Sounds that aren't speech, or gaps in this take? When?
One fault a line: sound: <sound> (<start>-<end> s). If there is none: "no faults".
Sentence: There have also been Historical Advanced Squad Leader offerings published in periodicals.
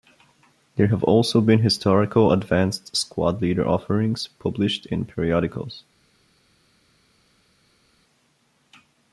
no faults